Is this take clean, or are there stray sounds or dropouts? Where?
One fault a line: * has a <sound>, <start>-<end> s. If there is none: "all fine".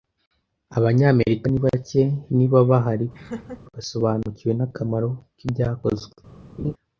* has a laugh, 3.1-3.6 s
* has a laugh, 6.6-6.7 s